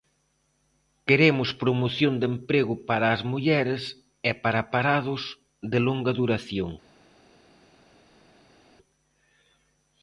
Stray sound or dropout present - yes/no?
no